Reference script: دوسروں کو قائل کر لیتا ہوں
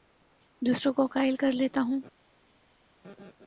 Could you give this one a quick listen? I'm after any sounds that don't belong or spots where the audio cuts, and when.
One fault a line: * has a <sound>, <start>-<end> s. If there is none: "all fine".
all fine